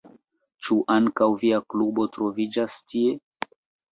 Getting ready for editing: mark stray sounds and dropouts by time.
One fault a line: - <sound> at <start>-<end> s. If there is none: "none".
none